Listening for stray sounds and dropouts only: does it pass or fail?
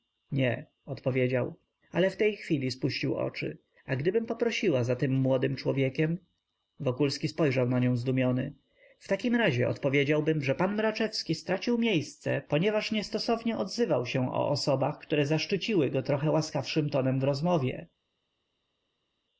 pass